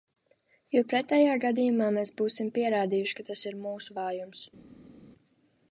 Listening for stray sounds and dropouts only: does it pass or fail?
pass